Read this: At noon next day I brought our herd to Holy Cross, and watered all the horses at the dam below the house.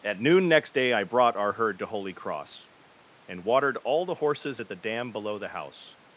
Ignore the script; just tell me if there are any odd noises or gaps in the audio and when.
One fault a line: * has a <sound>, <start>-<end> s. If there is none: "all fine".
all fine